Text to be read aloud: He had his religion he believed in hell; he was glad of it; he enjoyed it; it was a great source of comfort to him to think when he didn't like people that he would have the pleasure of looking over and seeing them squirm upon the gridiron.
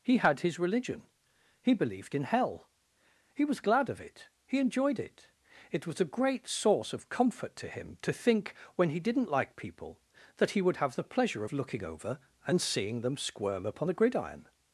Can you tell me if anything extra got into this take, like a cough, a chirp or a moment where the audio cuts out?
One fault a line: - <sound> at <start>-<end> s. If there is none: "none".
none